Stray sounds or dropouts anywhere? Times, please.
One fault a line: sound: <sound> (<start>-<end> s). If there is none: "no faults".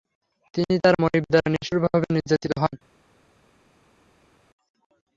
no faults